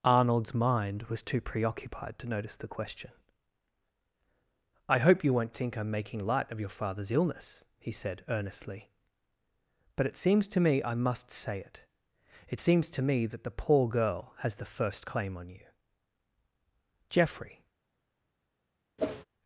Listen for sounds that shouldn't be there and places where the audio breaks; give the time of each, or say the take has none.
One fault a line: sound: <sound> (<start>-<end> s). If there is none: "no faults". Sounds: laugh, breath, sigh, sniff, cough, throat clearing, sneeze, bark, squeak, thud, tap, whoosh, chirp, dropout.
sound: whoosh (19.0-19.3 s)